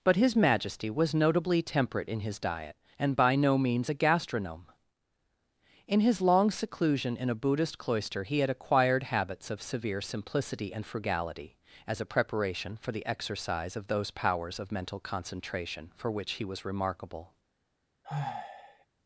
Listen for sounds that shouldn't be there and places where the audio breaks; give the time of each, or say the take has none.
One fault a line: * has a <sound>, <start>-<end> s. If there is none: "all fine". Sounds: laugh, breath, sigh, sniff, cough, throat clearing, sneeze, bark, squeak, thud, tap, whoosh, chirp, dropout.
* has a sigh, 18.0-18.9 s